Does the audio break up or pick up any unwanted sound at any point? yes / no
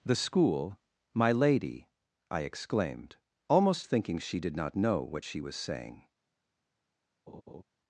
yes